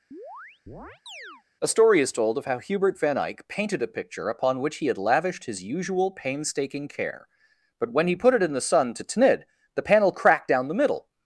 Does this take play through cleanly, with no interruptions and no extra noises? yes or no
no